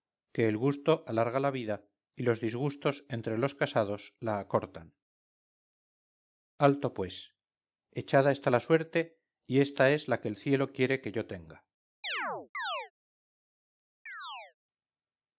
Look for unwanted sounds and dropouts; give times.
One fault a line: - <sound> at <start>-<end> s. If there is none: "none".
- chirp at 12.0-12.9 s
- chirp at 14.1-14.5 s